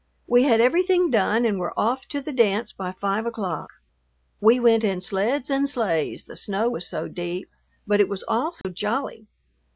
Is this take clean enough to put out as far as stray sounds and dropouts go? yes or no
no